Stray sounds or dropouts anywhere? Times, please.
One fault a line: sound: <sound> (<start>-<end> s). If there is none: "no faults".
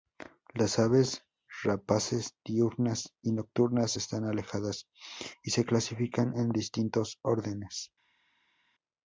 no faults